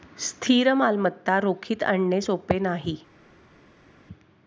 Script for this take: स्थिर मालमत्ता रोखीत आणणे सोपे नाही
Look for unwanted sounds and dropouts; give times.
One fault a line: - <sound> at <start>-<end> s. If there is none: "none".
none